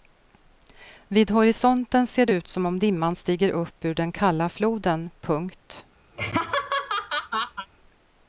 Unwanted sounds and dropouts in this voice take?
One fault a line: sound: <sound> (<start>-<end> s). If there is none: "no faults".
sound: laugh (6.1-7.7 s)